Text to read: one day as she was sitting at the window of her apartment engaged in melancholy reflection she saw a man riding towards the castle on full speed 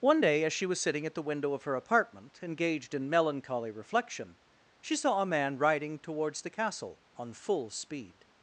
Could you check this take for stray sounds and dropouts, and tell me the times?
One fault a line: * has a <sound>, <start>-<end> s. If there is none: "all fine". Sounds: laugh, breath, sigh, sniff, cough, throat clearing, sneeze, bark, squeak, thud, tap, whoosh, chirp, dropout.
all fine